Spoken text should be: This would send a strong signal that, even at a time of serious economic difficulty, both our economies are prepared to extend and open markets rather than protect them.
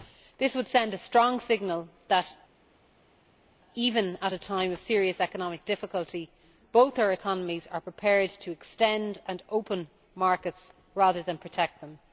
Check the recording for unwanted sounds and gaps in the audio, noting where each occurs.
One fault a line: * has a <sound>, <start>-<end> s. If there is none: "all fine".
all fine